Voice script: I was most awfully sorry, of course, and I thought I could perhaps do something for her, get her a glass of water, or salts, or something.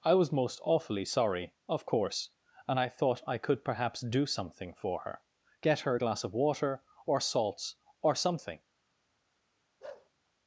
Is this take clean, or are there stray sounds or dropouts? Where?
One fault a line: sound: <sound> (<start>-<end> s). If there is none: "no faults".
sound: bark (9.8-10.1 s)